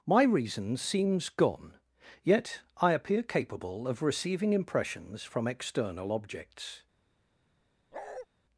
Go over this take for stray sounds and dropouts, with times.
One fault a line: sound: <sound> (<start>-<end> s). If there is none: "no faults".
sound: bark (7.9-8.3 s)